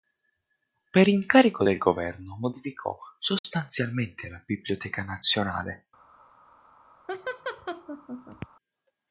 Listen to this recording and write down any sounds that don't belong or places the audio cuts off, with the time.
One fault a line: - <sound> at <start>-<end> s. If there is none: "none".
- dropout at 3.4-3.4 s
- laugh at 7.1-8.5 s